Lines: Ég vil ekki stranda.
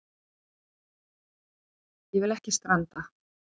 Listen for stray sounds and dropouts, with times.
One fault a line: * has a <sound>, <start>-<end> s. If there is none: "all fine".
all fine